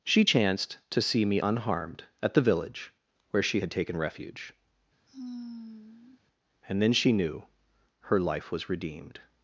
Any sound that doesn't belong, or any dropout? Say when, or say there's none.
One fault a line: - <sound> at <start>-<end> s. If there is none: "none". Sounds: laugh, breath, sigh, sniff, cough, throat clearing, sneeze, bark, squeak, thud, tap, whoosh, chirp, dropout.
- sigh at 5.1-6.2 s